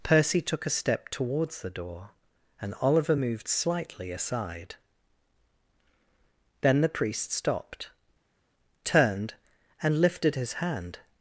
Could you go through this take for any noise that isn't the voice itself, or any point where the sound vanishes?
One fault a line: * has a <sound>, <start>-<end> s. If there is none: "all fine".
all fine